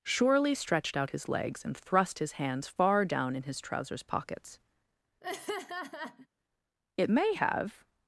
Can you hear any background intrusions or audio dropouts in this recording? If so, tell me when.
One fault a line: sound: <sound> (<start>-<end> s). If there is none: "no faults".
sound: laugh (5.2-6.3 s)